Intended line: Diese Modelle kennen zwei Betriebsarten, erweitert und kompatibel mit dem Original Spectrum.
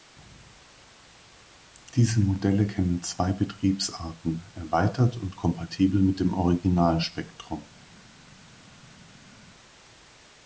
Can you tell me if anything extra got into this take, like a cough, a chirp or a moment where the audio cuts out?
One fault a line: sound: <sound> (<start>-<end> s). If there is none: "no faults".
no faults